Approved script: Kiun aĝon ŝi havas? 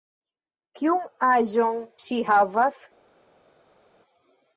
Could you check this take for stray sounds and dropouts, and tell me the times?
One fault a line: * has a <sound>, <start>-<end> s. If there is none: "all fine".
all fine